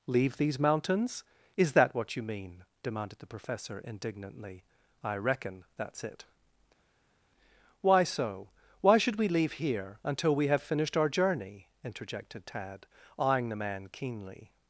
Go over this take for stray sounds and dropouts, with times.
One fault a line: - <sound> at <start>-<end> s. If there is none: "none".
none